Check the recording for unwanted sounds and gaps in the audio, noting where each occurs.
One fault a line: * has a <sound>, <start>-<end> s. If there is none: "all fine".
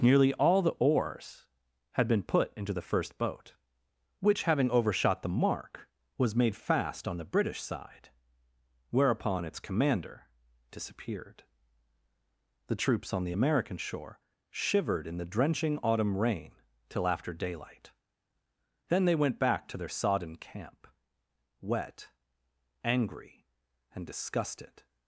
all fine